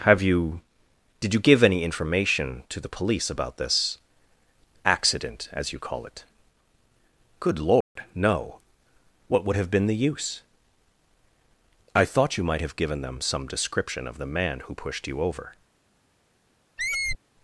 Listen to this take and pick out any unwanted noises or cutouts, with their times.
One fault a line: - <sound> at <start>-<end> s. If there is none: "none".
- dropout at 7.8-8.0 s
- squeak at 16.8-17.2 s